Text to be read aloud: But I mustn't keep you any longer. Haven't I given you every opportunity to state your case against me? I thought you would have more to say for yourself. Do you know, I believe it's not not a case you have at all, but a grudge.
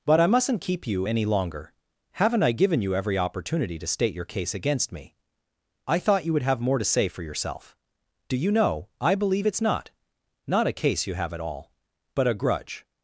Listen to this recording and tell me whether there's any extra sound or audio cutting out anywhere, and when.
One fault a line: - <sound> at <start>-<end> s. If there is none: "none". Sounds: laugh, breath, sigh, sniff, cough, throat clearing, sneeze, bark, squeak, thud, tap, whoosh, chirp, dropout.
none